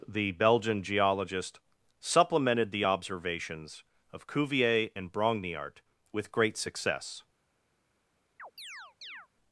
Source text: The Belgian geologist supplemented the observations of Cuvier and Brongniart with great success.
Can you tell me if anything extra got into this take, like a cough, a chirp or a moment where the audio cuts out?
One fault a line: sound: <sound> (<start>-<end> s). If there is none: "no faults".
sound: chirp (8.4-9.3 s)